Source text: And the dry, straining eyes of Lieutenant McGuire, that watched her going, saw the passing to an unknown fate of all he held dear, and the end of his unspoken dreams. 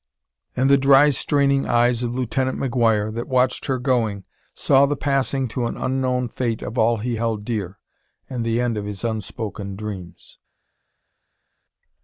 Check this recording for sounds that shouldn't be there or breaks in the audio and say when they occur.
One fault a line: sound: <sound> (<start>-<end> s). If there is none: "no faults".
no faults